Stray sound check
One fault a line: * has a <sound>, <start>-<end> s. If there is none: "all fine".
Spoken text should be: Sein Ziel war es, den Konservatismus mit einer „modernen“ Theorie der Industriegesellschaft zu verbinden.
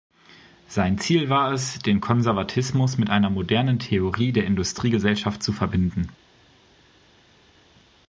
all fine